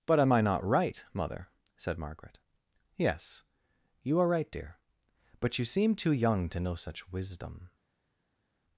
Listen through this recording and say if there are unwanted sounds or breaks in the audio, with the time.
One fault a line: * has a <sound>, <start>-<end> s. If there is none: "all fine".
all fine